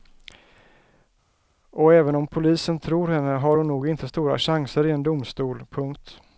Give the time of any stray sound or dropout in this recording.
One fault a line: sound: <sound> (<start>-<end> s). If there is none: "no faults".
no faults